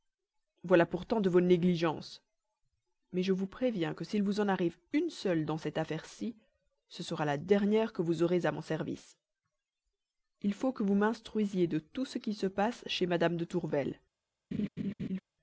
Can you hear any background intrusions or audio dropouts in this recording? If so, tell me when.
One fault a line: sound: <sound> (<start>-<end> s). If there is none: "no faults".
sound: laugh (14.5-15.2 s)